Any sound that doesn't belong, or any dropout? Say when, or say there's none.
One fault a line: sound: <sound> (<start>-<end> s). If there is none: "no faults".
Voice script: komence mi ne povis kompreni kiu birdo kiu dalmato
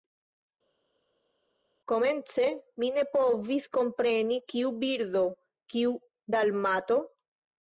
no faults